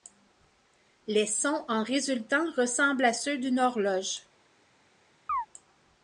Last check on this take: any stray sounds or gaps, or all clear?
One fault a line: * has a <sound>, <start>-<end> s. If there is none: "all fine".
* has a chirp, 5.3-5.5 s